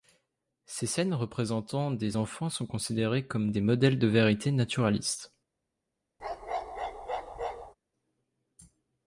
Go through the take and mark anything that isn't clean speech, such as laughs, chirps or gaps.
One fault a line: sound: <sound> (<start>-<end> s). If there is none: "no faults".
sound: bark (6.2-7.7 s)